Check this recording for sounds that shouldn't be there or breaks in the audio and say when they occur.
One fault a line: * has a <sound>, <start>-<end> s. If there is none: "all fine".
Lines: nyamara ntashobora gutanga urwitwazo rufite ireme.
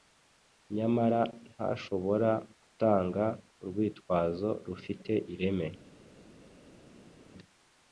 all fine